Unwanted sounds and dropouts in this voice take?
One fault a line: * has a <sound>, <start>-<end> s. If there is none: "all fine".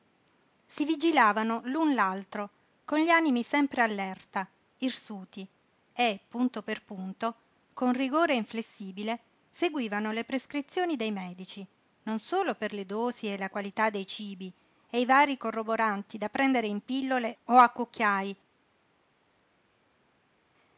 all fine